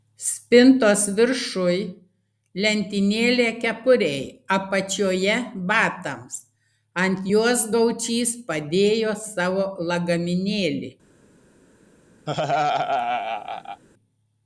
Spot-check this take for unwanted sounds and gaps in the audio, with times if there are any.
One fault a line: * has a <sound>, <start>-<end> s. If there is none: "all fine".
* has a laugh, 12.3-13.8 s